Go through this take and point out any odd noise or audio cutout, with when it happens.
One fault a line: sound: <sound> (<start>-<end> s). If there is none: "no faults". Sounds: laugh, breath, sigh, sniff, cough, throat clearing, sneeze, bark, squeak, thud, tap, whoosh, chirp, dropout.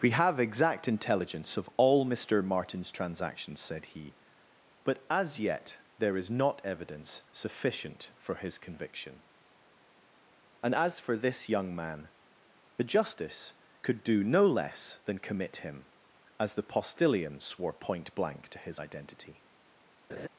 sound: laugh (20.1-20.3 s)